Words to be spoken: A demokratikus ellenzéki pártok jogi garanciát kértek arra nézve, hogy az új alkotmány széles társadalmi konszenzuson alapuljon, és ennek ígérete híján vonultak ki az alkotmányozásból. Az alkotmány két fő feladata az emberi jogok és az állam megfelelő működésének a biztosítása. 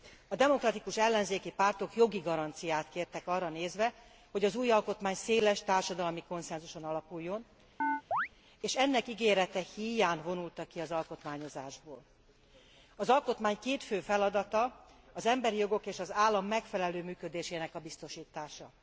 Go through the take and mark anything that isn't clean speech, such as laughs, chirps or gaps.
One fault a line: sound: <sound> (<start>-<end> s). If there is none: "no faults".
sound: chirp (7.8-8.3 s)